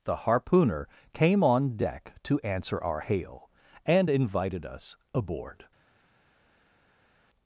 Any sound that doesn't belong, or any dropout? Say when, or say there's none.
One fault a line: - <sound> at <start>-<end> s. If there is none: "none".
none